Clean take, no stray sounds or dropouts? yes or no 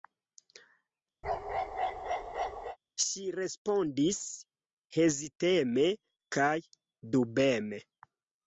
no